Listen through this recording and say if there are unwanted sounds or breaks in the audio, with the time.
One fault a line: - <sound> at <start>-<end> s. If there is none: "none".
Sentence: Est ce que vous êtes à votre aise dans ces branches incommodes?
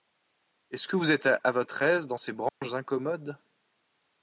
- dropout at 2.5-2.6 s